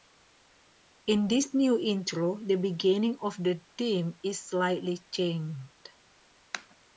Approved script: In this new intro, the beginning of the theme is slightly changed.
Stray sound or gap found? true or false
false